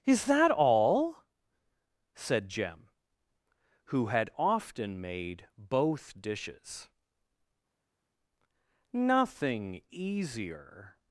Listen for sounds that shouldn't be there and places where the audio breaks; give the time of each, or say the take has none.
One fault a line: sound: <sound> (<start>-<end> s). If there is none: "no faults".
no faults